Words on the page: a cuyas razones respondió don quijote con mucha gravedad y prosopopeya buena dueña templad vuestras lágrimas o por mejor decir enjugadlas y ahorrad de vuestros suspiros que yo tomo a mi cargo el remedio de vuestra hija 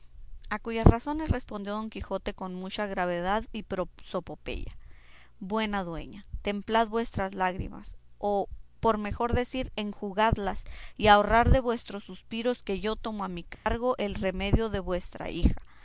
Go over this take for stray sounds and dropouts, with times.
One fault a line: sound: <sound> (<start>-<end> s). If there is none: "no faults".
sound: dropout (13.5-13.7 s)